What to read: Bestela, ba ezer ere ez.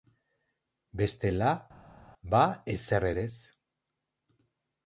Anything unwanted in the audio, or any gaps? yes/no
no